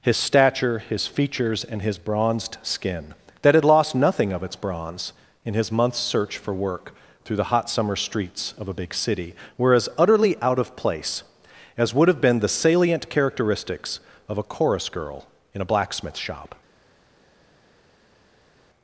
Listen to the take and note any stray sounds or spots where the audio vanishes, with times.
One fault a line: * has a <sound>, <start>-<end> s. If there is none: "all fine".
all fine